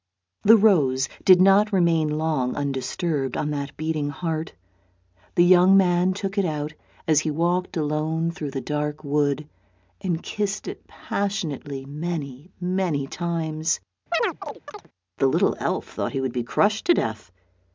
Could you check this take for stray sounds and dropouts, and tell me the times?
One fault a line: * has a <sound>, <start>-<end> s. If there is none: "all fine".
* has a chirp, 14.1-14.9 s